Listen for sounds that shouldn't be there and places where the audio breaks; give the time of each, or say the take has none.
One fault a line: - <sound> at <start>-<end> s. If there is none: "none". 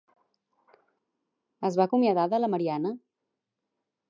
none